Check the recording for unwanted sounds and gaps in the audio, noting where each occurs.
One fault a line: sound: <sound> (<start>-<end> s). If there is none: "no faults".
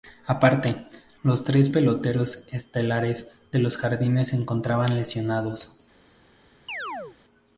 sound: chirp (6.7-7.2 s)